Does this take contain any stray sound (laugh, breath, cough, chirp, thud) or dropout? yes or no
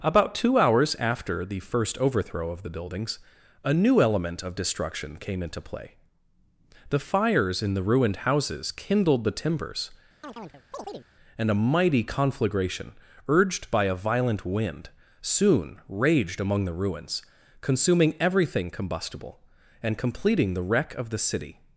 yes